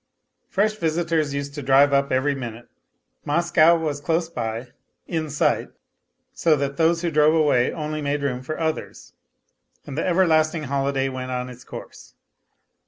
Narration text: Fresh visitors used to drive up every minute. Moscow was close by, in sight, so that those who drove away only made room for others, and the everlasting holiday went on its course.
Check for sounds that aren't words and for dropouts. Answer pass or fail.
pass